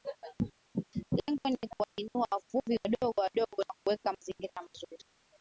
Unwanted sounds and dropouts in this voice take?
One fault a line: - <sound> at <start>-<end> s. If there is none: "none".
- dropout at 1.8-2.0 s